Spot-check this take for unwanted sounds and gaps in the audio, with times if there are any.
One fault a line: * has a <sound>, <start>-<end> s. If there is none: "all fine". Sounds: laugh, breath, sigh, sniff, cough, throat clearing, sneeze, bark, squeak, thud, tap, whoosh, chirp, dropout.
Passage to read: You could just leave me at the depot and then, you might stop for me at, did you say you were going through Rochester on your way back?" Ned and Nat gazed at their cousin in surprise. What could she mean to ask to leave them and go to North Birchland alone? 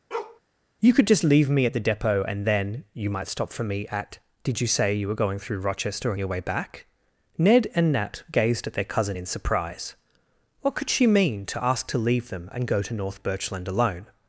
* has a bark, 0.1-0.4 s